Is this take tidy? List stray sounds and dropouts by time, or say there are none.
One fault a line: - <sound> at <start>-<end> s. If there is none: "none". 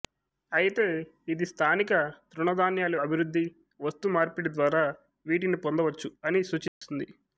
- dropout at 6.7-6.8 s